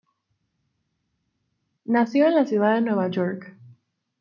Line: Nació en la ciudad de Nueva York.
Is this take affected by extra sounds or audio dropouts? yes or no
no